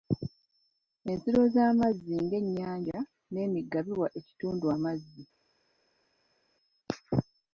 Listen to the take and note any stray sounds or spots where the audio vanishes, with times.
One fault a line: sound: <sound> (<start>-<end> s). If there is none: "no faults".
no faults